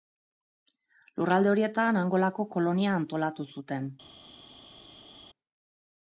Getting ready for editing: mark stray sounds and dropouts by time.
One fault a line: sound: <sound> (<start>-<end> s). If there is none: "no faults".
no faults